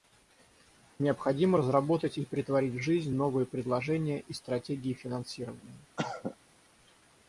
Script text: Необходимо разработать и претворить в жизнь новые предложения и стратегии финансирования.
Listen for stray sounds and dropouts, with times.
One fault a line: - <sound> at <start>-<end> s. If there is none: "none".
- cough at 6.0-6.4 s